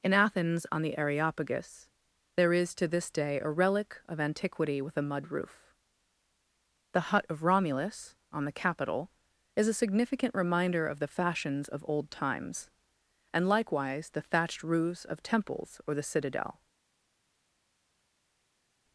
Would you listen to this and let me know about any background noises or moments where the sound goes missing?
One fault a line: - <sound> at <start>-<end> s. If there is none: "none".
none